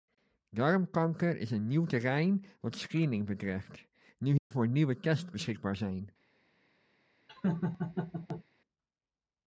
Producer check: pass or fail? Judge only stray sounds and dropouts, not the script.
fail